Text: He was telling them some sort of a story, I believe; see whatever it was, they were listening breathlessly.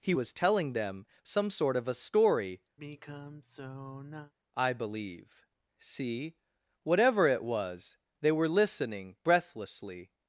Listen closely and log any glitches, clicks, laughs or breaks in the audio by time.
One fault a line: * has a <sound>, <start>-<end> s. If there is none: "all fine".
* has a sigh, 2.8-4.3 s